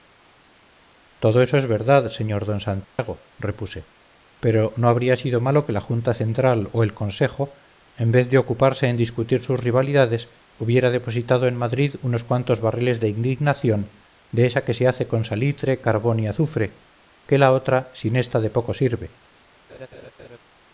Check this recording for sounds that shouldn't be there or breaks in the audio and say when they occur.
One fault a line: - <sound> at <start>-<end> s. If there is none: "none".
- dropout at 2.8-3.0 s
- laugh at 19.7-20.4 s